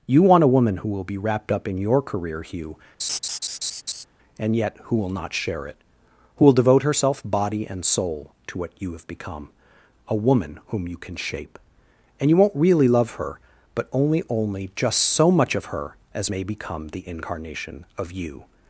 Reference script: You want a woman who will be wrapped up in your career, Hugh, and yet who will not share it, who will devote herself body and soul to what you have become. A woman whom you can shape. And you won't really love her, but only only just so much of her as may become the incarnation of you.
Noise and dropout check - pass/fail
fail